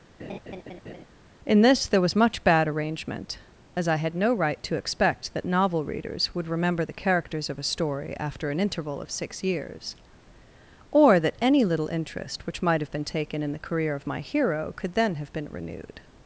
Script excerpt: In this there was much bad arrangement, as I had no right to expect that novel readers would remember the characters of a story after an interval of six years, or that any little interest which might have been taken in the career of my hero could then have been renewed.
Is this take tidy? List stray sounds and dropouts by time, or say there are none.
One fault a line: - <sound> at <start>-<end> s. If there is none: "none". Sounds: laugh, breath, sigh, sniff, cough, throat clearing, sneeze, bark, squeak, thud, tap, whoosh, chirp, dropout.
- laugh at 0.2-1.1 s